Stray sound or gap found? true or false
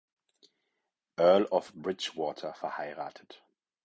false